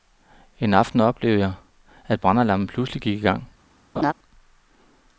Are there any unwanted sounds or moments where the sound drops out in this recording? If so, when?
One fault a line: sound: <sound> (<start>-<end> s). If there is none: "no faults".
sound: laugh (4.0-4.1 s)